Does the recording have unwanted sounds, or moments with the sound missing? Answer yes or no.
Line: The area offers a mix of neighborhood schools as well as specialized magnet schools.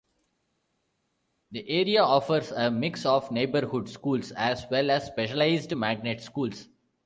no